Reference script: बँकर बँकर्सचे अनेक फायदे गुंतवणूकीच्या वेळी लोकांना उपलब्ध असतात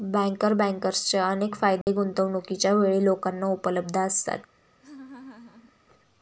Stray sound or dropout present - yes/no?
yes